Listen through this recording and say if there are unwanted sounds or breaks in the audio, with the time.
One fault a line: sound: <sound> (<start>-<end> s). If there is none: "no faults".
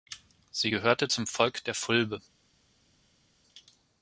no faults